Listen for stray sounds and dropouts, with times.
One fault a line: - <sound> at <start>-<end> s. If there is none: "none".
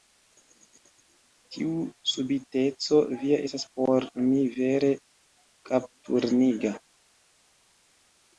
none